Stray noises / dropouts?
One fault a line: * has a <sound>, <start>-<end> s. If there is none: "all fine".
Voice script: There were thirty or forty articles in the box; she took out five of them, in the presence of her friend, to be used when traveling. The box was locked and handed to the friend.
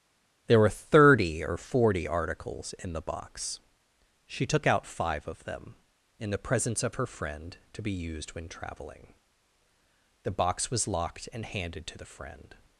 all fine